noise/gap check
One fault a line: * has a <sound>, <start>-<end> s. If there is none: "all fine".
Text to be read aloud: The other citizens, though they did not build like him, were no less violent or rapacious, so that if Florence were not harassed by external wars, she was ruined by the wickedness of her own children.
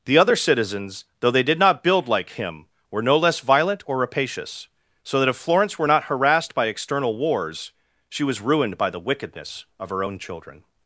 all fine